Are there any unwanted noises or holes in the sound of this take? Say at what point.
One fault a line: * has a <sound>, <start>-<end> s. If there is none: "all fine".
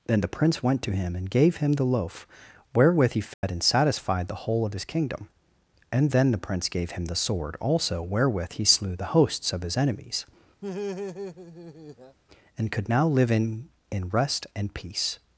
* has a dropout, 3.3-3.4 s
* has a laugh, 10.6-12.2 s